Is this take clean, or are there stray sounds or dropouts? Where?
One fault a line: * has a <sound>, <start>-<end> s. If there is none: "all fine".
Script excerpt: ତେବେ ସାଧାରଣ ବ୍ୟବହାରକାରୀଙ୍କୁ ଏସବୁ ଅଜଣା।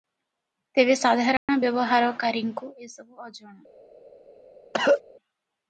* has a dropout, 1.4-1.5 s
* has a cough, 4.7-5.0 s